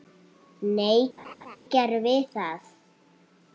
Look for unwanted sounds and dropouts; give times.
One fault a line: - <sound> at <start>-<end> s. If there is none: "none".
- laugh at 1.2-1.6 s